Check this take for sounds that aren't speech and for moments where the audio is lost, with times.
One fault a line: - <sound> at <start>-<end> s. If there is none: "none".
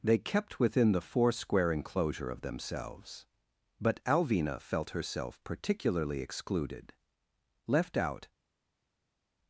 none